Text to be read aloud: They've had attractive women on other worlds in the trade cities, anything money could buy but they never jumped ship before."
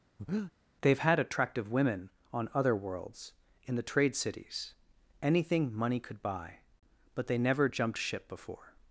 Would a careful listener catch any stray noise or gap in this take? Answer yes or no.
yes